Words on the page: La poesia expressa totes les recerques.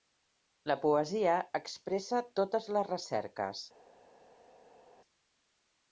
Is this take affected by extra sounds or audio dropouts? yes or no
no